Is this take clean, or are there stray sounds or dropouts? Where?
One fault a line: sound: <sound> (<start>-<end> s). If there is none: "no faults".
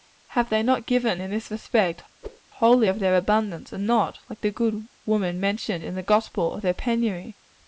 sound: whoosh (2.2-2.4 s)